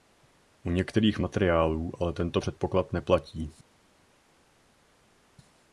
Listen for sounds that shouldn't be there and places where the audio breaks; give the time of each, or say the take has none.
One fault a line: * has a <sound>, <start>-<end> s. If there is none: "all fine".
all fine